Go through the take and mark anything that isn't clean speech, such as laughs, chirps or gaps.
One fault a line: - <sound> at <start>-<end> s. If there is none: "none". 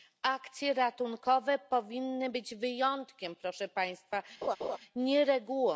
- laugh at 4.4-4.8 s